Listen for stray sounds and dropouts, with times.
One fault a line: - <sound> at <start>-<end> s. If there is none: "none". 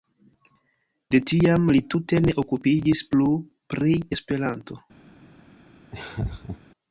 - laugh at 5.9-6.6 s